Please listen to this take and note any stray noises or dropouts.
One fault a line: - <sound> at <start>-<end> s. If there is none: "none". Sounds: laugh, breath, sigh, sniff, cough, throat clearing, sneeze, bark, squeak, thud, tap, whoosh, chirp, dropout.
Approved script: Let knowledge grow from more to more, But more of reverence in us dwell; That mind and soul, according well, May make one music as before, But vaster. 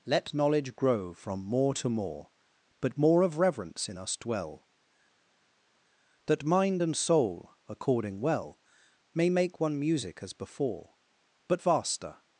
none